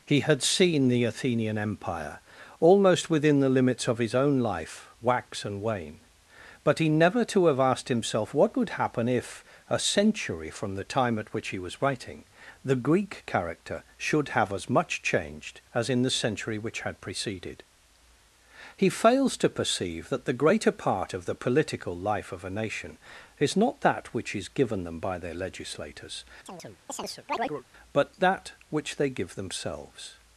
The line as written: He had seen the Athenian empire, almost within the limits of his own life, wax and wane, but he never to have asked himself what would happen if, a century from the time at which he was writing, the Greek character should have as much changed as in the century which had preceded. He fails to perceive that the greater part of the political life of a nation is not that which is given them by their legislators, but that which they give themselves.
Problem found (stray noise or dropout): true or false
true